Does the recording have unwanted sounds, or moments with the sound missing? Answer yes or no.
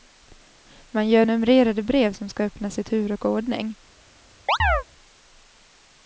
yes